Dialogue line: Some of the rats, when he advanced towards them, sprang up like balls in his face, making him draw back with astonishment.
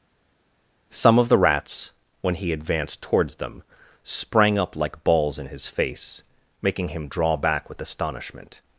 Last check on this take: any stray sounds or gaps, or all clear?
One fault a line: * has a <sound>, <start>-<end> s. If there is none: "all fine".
all fine